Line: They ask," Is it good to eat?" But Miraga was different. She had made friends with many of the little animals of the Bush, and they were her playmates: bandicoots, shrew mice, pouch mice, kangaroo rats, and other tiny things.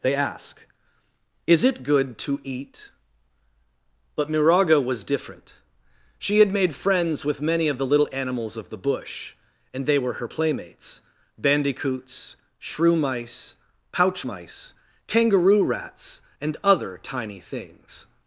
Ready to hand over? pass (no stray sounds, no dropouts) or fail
pass